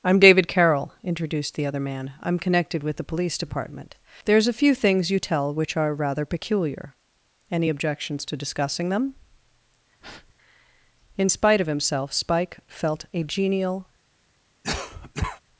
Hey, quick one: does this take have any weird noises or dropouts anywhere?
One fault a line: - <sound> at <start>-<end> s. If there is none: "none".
- breath at 10.0-10.3 s
- cough at 14.6-15.4 s